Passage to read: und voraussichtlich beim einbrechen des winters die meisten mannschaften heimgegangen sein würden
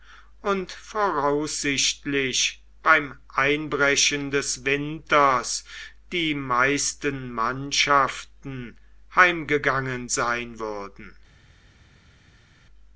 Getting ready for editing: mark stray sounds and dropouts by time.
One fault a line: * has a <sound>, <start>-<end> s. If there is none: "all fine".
all fine